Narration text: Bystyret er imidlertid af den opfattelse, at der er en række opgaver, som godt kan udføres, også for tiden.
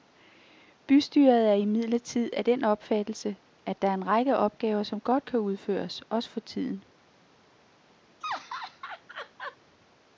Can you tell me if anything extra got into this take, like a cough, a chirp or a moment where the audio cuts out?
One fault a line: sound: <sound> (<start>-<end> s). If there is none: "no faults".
sound: laugh (8.2-9.6 s)